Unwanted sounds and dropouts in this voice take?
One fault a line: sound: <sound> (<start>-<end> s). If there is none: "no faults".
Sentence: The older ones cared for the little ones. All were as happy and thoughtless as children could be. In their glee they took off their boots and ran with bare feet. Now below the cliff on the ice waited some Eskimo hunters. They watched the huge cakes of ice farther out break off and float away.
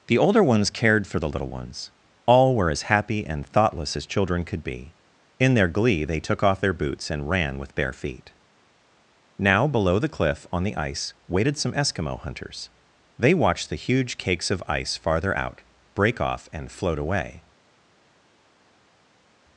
no faults